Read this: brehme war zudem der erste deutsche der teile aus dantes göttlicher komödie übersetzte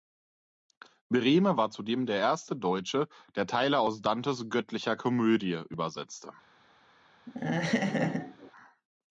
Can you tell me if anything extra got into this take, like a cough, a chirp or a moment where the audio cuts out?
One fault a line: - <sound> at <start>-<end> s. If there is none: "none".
- laugh at 7.3-8.5 s